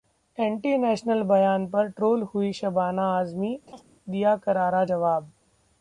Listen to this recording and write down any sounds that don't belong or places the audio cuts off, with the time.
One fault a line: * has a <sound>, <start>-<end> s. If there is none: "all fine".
* has a laugh, 3.7-3.8 s